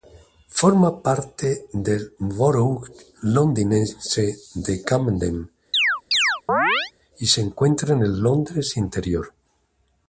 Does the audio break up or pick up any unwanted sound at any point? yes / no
yes